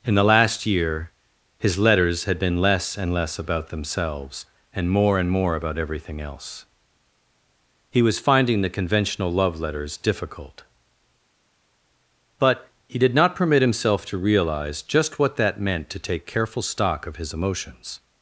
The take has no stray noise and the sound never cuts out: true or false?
true